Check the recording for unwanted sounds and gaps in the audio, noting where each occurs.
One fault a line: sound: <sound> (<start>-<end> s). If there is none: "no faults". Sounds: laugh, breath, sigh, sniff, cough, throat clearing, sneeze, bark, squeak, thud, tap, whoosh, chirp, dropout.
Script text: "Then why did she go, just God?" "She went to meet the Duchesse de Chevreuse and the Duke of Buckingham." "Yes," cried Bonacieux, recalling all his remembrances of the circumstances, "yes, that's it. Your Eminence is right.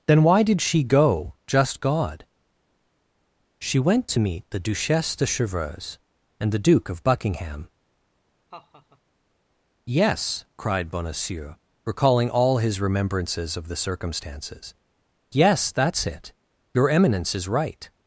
sound: laugh (8.5-9.0 s)